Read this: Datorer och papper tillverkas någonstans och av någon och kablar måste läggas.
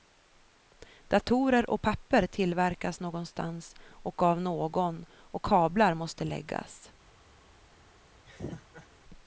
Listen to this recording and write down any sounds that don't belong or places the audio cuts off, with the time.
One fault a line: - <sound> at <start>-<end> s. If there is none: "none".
- laugh at 8.3-8.9 s